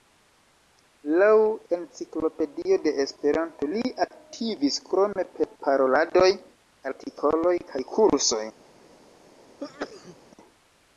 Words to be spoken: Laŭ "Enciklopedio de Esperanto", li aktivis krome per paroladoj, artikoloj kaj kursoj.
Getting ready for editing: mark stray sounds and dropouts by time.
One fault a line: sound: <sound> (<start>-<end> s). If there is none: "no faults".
sound: sneeze (9.6-10.2 s)